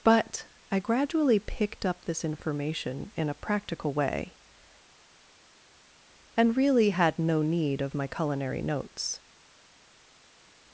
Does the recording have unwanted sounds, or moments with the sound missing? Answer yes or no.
no